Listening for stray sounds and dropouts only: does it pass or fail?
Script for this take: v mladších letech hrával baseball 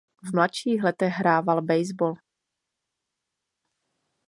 pass